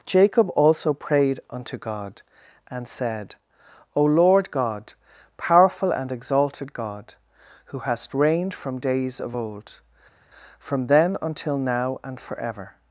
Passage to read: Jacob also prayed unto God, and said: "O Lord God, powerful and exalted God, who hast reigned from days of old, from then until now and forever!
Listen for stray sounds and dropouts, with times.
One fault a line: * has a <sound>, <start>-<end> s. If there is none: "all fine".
all fine